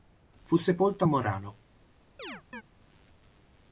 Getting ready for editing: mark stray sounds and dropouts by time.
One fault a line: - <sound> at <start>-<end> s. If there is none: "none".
- chirp at 2.2-2.6 s